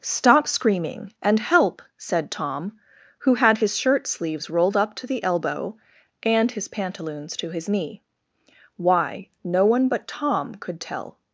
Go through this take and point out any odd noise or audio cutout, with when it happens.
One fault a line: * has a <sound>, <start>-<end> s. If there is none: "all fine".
all fine